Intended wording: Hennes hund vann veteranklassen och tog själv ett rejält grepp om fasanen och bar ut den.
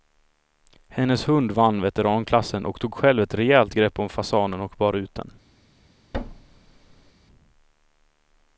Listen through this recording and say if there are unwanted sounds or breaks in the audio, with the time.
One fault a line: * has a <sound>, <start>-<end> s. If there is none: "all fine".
* has a thud, 6.1-7.1 s